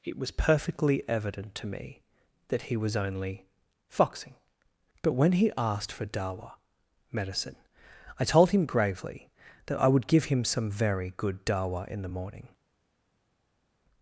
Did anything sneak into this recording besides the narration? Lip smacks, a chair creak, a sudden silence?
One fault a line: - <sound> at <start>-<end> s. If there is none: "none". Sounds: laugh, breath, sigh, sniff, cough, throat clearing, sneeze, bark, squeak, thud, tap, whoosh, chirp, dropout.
none